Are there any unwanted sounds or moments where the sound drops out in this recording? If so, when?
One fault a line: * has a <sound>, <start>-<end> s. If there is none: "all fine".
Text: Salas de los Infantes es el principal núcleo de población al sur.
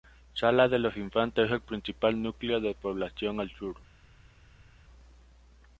all fine